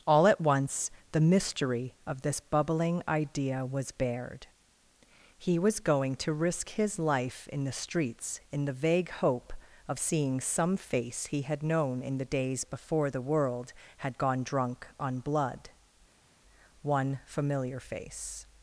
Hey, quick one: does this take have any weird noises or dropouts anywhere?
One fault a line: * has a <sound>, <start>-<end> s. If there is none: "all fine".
all fine